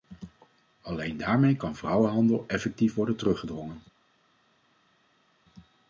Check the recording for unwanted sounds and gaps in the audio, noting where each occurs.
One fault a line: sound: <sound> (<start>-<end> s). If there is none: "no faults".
no faults